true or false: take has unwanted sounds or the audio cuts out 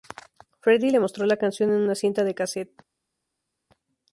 false